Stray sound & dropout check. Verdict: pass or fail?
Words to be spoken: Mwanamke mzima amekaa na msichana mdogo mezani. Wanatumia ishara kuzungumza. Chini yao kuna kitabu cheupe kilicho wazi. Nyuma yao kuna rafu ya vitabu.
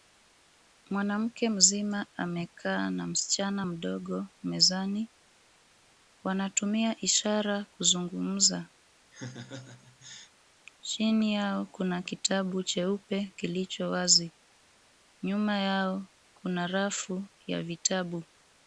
fail